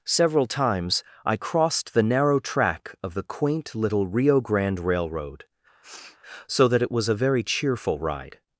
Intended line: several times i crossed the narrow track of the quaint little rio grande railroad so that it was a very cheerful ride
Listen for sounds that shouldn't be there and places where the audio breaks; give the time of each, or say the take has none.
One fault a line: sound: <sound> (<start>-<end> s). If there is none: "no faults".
sound: sniff (5.8-6.2 s)